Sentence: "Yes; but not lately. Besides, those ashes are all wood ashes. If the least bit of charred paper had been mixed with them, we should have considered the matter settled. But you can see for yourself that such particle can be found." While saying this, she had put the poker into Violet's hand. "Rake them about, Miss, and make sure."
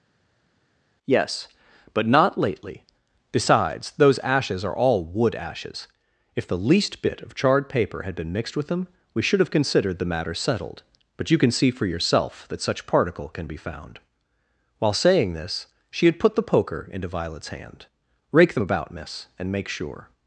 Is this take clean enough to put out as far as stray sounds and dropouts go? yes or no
yes